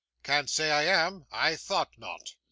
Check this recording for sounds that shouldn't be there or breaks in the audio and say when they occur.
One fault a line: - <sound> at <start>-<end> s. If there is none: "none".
none